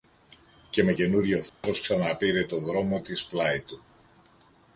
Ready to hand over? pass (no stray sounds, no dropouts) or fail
fail